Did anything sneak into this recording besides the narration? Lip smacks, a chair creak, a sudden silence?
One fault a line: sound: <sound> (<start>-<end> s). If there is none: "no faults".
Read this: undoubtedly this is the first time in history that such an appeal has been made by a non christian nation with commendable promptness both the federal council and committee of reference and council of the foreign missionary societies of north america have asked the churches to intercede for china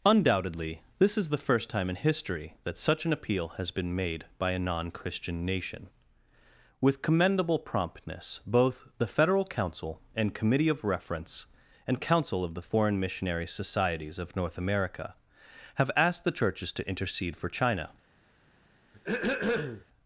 sound: throat clearing (18.9-19.9 s)